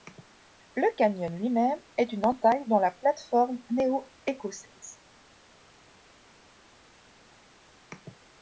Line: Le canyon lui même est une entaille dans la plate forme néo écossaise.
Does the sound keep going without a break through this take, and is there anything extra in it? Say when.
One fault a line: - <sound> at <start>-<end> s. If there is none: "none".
none